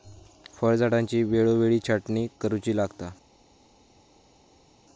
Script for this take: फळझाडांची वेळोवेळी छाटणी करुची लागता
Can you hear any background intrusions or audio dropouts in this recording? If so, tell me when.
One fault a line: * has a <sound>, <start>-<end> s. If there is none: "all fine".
all fine